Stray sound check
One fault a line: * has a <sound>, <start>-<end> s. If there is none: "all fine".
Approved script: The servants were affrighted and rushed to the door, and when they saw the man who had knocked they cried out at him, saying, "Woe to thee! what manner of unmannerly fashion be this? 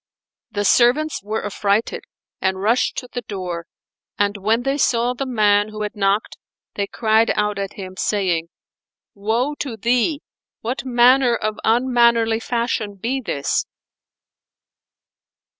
all fine